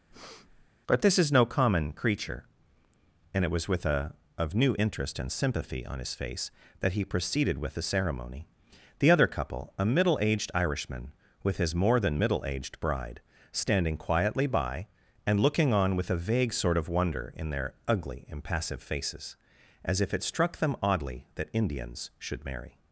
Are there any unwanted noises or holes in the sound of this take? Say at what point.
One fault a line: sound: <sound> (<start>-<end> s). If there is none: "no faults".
sound: breath (0.1-0.7 s)